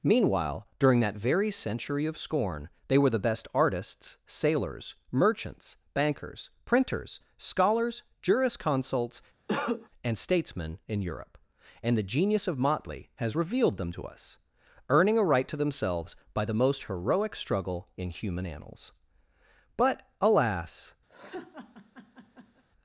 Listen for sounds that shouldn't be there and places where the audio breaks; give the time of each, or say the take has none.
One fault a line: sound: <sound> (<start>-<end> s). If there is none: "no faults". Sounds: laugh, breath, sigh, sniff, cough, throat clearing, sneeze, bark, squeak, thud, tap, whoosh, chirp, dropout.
sound: cough (9.5-9.9 s)
sound: laugh (21.1-22.6 s)